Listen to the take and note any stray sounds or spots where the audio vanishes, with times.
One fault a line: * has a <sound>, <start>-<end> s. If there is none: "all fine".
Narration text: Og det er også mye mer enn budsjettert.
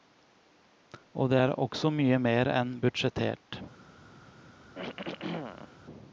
* has a throat clearing, 4.7-5.8 s